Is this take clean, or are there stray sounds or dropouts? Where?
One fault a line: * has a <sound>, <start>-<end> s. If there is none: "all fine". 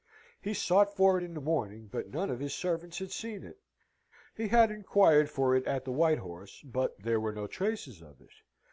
all fine